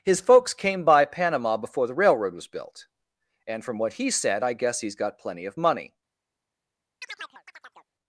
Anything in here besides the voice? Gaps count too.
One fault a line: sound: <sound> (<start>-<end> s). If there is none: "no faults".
sound: chirp (7.0-7.9 s)